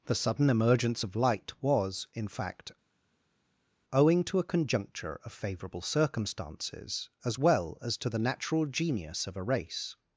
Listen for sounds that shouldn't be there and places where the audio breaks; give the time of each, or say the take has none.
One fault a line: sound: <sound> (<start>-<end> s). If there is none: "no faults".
no faults